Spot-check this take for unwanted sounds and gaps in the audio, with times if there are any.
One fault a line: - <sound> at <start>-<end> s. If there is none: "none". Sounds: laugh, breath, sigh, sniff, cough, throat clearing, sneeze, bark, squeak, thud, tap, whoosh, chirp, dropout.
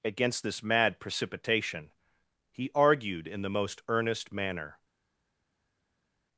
none